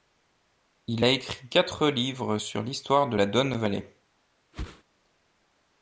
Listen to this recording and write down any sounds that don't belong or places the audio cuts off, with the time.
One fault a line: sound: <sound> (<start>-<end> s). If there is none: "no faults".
sound: whoosh (4.5-4.8 s)